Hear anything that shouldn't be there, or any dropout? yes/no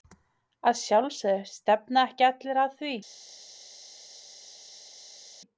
no